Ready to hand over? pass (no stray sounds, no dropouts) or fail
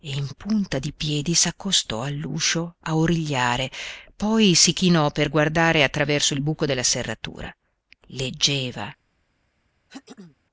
fail